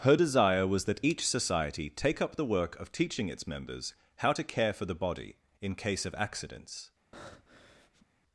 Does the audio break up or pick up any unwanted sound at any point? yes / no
yes